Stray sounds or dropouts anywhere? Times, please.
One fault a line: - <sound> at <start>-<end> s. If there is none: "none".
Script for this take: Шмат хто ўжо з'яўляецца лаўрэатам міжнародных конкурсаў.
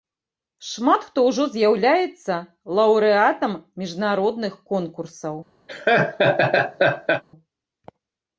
- laugh at 5.7-7.2 s